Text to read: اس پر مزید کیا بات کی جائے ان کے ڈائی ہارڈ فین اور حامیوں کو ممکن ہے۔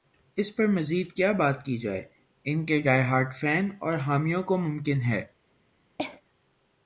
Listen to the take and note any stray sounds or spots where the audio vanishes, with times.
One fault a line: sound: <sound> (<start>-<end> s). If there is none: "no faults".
sound: cough (6.0-6.2 s)